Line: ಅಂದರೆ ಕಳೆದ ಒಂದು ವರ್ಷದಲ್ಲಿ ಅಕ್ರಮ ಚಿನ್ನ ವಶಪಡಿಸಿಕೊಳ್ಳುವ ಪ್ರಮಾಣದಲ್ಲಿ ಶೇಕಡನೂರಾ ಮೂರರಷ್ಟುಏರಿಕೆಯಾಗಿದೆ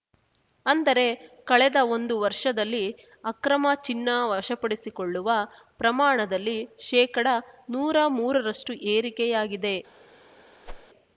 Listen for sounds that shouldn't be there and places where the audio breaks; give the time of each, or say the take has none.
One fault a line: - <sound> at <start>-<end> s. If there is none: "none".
- whoosh at 10.7-10.9 s